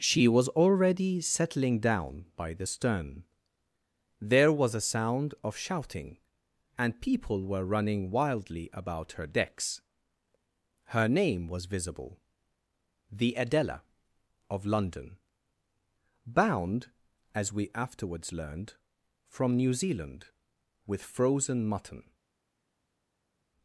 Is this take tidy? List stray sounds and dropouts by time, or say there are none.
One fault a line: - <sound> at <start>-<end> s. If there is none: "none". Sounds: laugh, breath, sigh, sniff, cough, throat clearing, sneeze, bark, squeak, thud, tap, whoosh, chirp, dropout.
none